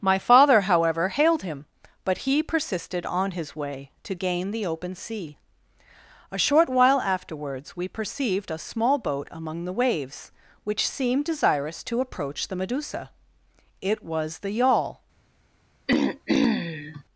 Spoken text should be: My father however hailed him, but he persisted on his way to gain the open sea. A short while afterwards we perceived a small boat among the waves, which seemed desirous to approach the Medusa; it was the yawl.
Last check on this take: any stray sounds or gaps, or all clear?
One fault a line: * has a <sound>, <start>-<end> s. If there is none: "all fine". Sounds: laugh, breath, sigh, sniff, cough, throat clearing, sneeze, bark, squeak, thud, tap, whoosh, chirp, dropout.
* has a throat clearing, 15.9-17.0 s